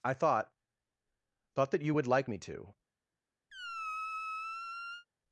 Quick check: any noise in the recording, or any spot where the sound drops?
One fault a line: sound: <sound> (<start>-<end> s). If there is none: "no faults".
sound: squeak (3.5-5.1 s)